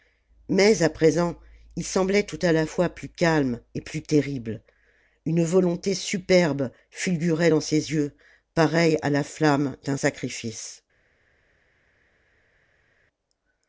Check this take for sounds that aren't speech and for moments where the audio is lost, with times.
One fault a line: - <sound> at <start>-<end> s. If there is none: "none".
none